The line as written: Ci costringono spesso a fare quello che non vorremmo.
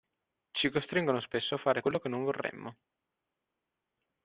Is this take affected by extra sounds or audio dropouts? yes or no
no